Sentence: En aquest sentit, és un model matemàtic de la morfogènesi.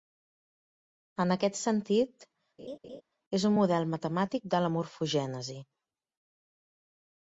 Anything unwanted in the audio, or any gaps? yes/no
yes